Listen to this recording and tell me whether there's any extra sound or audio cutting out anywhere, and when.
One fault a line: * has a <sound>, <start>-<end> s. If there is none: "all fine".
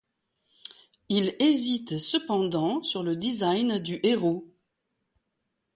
all fine